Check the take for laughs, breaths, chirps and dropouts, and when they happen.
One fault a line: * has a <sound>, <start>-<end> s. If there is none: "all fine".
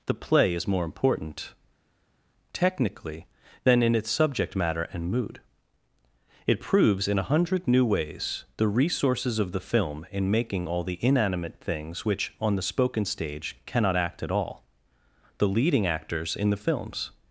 all fine